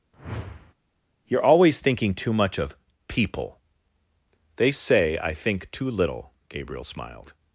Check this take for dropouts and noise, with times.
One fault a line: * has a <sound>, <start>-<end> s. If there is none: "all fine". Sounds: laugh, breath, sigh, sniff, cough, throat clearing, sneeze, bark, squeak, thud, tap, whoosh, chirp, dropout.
* has a whoosh, 0.1-0.7 s